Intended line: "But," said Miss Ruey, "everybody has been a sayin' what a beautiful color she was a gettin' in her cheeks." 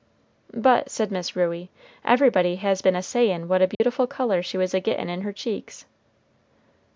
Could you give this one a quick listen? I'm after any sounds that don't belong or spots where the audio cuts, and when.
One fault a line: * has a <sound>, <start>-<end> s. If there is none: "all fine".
* has a dropout, 3.7-3.8 s